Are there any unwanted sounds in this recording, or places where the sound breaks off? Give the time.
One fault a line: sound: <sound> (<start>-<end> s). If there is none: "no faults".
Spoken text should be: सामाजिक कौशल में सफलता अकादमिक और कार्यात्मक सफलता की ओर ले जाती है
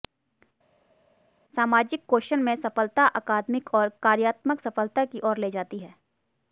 no faults